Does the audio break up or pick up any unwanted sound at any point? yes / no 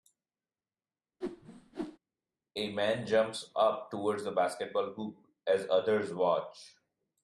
yes